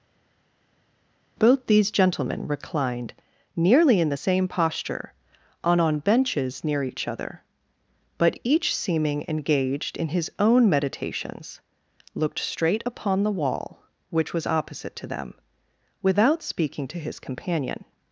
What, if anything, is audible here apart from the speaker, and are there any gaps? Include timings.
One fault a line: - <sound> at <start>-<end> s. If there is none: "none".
none